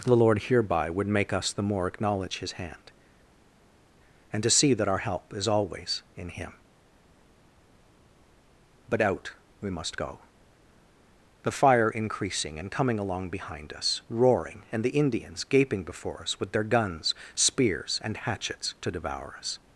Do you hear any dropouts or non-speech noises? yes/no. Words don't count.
no